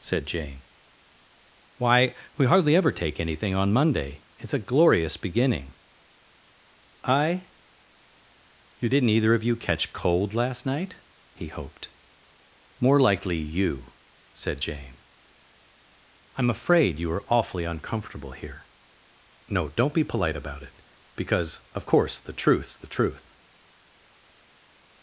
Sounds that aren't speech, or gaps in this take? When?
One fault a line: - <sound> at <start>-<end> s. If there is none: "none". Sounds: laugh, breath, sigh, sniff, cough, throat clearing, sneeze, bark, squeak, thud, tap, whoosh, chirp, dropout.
none